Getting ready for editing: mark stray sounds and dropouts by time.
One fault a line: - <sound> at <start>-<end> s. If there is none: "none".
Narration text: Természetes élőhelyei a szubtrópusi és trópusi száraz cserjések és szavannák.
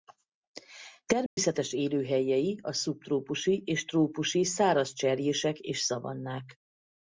- dropout at 1.3-1.4 s